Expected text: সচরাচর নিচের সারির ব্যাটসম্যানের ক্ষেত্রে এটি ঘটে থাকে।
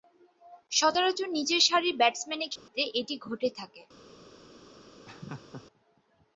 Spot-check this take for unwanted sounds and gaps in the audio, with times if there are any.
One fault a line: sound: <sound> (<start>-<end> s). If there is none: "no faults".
sound: dropout (2.6-2.7 s)
sound: laugh (5.1-5.7 s)